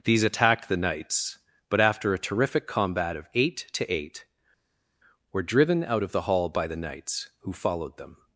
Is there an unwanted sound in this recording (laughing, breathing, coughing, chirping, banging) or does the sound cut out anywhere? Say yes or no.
no